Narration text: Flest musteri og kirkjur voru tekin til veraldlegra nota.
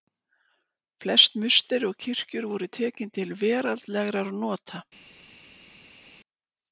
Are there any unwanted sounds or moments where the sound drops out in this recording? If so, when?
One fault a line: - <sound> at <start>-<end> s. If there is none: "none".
none